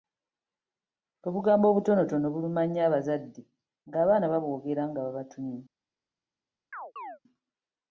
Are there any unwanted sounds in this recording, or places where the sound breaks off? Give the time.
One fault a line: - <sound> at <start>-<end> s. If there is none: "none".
- chirp at 6.7-7.2 s